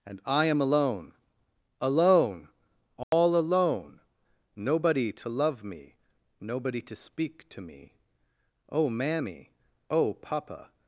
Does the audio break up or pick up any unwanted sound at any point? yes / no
yes